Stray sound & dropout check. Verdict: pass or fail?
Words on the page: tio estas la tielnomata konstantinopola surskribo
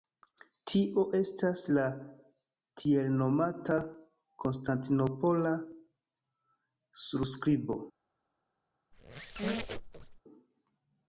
fail